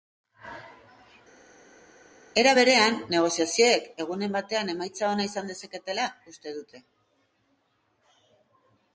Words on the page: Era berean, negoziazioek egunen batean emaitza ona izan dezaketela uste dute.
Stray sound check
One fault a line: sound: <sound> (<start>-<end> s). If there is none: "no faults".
no faults